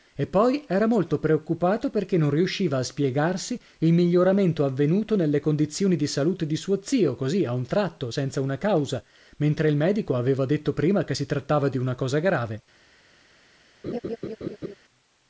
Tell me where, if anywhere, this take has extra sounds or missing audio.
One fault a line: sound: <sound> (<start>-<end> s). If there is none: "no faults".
sound: laugh (13.8-14.7 s)